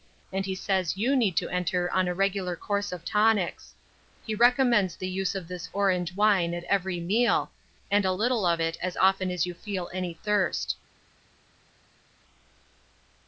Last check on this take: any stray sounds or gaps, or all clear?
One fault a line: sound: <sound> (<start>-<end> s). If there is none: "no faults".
no faults